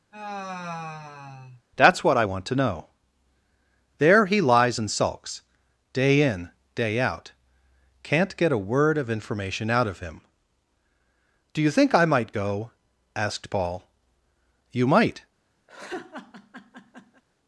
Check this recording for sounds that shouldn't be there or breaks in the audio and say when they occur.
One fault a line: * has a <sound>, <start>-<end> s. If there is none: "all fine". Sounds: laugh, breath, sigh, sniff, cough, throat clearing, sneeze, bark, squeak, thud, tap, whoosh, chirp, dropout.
* has a sigh, 0.1-1.6 s
* has a laugh, 15.7-17.2 s